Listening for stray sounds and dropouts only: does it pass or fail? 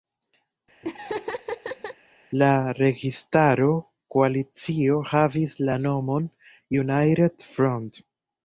fail